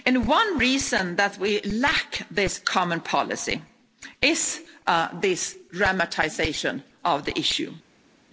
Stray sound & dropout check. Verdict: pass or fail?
pass